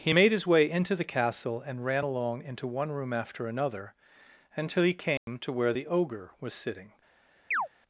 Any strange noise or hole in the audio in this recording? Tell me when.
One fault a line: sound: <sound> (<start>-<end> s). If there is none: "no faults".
sound: dropout (5.2-5.3 s)
sound: chirp (7.5-7.7 s)